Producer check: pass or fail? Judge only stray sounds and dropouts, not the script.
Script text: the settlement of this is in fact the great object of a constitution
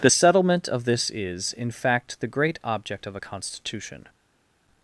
pass